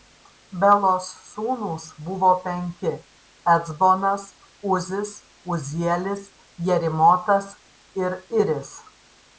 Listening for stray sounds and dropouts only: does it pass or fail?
pass